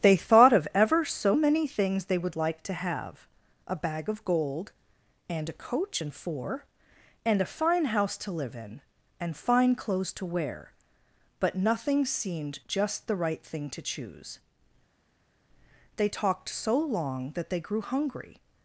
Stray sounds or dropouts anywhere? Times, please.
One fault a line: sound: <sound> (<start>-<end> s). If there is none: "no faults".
no faults